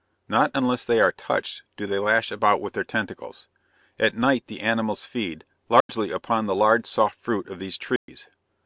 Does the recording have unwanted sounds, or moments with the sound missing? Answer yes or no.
yes